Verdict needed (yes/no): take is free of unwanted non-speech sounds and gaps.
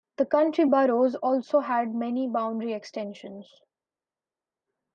yes